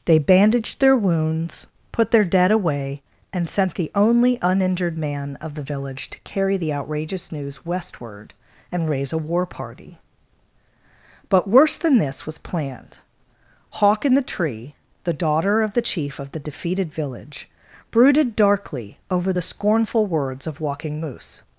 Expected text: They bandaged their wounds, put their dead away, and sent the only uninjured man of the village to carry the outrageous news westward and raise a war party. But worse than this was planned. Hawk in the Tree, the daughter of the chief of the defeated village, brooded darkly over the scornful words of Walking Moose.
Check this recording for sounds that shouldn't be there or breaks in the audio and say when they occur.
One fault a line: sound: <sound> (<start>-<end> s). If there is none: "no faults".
no faults